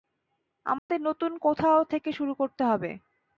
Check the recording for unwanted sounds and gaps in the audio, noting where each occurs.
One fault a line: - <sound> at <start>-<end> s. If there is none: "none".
- dropout at 0.8-0.9 s